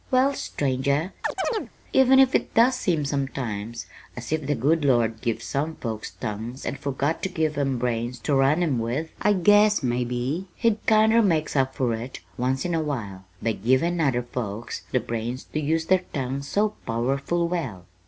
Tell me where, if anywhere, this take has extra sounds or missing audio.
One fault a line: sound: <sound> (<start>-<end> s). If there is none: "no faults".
sound: chirp (1.2-1.7 s)